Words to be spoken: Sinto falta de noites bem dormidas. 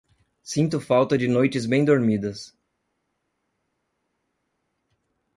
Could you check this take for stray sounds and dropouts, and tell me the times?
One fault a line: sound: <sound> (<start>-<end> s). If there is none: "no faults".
no faults